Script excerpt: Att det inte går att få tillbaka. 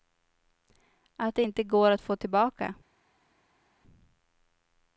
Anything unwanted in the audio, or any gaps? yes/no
no